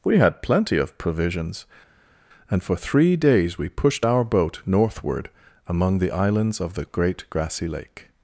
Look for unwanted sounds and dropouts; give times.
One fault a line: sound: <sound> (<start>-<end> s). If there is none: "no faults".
no faults